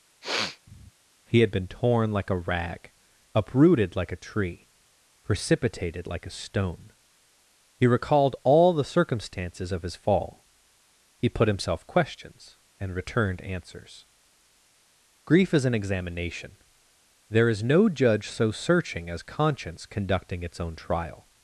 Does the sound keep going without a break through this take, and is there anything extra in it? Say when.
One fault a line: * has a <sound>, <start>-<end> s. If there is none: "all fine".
* has a sniff, 0.2-0.9 s